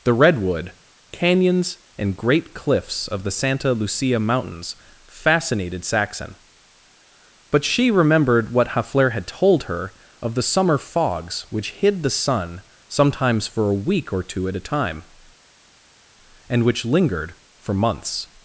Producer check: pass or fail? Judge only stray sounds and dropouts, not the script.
pass